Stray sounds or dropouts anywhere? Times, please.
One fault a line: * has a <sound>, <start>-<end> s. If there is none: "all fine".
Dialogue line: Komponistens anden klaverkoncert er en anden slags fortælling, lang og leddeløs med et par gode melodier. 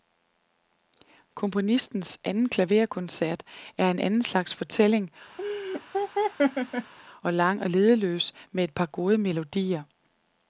* has a laugh, 5.4-6.9 s